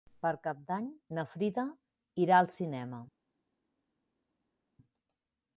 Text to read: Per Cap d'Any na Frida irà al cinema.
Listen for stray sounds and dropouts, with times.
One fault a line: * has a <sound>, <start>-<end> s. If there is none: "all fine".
all fine